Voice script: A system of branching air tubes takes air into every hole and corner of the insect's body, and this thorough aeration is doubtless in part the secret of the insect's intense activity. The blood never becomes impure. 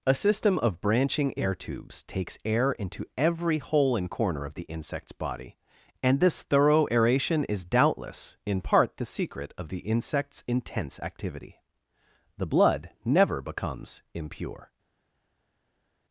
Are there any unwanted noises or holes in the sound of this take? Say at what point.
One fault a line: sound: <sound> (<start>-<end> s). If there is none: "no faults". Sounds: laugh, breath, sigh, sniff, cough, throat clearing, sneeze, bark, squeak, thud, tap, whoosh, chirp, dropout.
no faults